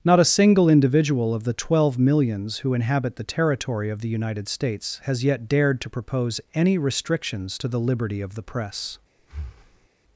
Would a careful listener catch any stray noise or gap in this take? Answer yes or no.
yes